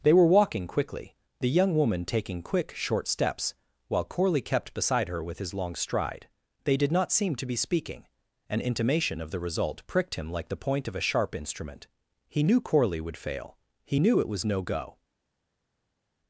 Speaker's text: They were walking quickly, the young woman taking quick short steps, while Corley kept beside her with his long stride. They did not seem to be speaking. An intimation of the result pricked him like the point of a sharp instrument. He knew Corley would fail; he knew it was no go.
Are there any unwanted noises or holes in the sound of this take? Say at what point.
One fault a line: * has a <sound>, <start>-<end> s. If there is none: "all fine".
all fine